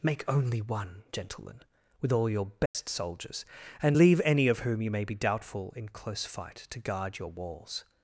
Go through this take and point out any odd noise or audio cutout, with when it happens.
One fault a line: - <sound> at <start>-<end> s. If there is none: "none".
- dropout at 2.7-2.7 s